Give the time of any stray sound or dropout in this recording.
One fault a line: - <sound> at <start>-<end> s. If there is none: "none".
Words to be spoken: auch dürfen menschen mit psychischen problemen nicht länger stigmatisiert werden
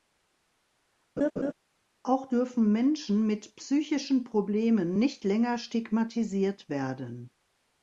- laugh at 1.2-1.5 s